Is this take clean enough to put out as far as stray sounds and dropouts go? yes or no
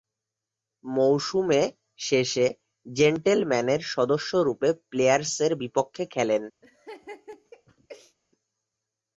no